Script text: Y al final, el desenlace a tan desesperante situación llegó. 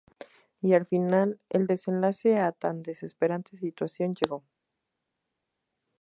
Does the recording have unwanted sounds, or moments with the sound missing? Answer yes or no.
no